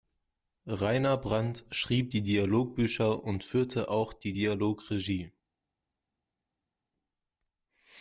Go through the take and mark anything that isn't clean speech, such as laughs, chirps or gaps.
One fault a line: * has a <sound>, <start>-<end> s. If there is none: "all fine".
all fine